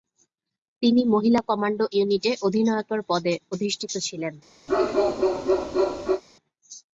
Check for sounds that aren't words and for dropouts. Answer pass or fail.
fail